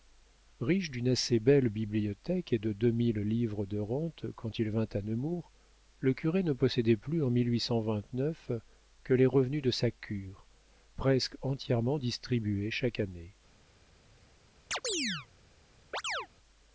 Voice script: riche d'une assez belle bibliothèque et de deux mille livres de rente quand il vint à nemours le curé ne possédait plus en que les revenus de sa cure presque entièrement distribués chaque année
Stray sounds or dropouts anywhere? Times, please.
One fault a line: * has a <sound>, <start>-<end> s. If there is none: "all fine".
* has a chirp, 14.7-15.3 s
* has a chirp, 15.9-16.3 s